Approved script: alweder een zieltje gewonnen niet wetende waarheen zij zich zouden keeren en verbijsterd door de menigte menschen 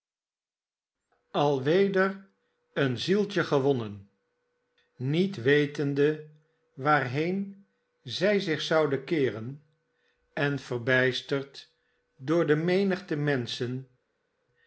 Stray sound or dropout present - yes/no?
no